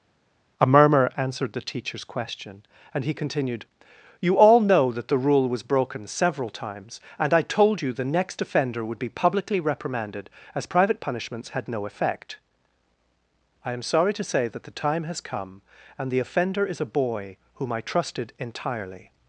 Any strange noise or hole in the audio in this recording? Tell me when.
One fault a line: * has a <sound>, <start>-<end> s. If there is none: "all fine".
all fine